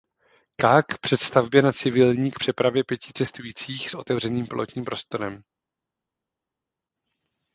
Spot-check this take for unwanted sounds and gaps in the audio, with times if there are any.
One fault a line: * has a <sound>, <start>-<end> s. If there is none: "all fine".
all fine